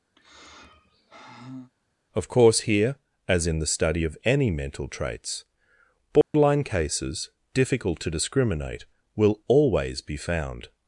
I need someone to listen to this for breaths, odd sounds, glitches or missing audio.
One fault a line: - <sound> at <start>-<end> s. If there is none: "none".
- sigh at 0.2-1.7 s
- dropout at 6.2-6.3 s